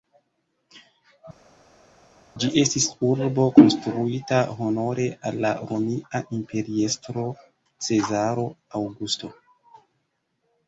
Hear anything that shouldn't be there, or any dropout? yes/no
no